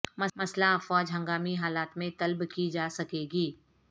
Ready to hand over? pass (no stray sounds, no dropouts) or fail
pass